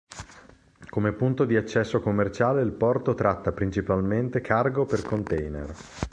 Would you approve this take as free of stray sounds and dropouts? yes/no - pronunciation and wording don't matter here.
yes